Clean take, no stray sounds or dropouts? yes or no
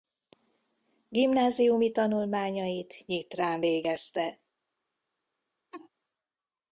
no